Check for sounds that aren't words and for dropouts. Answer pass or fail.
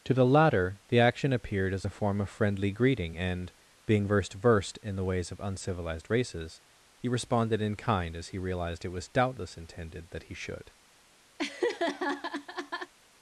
fail